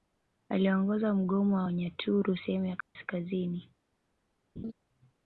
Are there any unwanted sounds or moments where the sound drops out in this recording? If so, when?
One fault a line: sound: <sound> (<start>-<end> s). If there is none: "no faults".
sound: dropout (2.8-3.0 s)
sound: laugh (4.6-4.7 s)